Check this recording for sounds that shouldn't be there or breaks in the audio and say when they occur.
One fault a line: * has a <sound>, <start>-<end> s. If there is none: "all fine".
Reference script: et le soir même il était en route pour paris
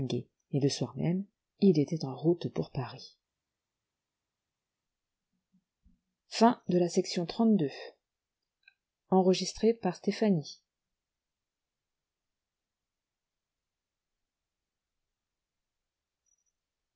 all fine